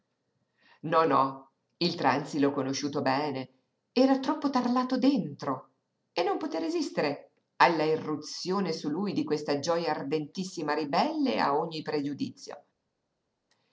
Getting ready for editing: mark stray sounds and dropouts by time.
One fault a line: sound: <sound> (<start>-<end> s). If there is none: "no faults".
no faults